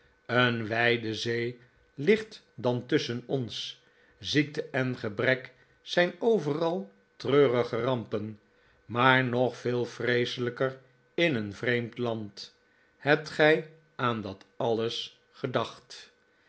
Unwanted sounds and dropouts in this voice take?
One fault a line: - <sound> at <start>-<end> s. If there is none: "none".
none